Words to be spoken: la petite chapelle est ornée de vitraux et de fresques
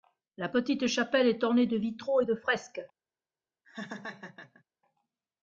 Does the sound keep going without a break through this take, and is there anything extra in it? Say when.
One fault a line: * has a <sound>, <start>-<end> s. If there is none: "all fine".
* has a laugh, 3.6-4.6 s